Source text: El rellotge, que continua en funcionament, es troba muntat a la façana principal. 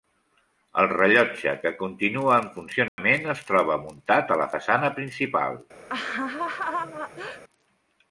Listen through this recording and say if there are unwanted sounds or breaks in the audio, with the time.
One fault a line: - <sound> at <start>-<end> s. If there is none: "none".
- dropout at 2.9-3.0 s
- laugh at 5.9-7.4 s